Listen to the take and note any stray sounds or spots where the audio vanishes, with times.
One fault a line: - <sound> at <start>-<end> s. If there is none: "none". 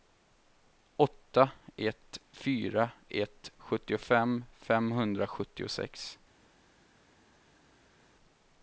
none